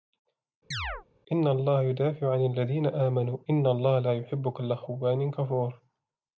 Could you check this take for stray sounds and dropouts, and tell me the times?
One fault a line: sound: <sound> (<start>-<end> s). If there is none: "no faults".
sound: chirp (0.7-1.1 s)